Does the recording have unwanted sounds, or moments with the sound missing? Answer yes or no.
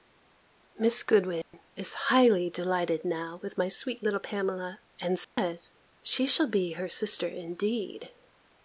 yes